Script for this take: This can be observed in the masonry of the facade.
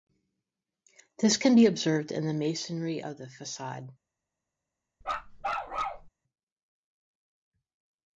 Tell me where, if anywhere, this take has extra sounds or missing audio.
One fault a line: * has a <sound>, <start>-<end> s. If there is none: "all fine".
* has a bark, 5.0-6.1 s